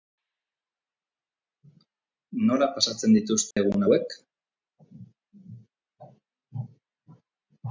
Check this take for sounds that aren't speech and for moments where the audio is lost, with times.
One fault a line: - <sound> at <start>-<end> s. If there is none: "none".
- dropout at 3.5-3.6 s